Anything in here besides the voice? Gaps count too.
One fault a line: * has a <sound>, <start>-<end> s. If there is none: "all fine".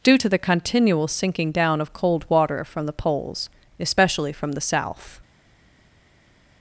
all fine